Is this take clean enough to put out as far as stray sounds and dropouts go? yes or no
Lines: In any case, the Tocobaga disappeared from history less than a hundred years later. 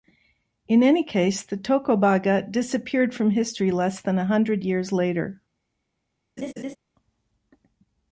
no